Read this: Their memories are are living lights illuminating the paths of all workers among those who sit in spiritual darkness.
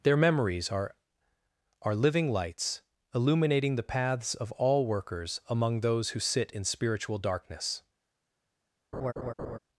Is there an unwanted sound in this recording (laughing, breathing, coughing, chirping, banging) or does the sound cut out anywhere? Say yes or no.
yes